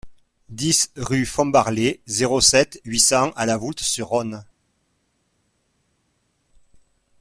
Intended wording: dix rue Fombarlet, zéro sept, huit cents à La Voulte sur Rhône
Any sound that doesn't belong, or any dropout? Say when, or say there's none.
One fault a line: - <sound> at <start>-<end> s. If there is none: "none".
none